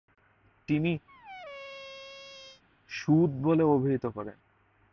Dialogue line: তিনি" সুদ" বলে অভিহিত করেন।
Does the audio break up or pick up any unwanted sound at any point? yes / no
yes